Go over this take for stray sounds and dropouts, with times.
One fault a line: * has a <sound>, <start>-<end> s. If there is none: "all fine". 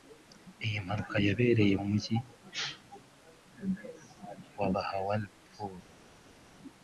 all fine